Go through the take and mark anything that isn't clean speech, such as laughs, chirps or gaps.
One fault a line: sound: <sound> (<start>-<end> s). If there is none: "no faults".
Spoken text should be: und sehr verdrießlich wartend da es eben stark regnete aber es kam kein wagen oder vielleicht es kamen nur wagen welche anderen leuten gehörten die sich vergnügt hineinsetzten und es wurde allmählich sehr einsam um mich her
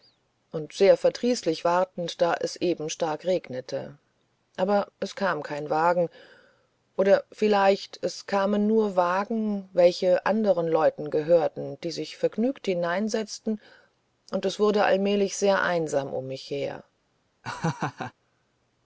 sound: laugh (17.4-18.1 s)